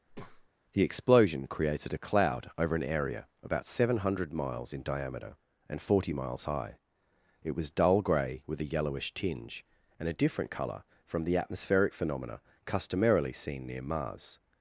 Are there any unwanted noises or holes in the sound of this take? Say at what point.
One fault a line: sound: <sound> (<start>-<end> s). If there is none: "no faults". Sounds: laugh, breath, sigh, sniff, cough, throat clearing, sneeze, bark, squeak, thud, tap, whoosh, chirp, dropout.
sound: breath (0.1-0.5 s)